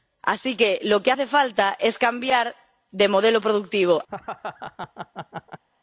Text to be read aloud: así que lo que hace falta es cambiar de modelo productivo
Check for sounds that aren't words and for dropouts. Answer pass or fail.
fail